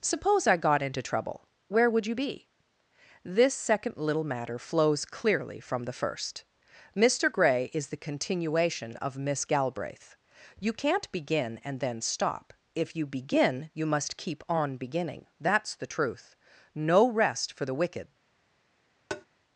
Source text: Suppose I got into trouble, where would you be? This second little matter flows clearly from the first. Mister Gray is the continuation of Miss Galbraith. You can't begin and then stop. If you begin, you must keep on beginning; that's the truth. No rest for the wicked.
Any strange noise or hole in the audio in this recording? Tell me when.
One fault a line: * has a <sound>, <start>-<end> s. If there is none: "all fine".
* has a tap, 19.1-19.3 s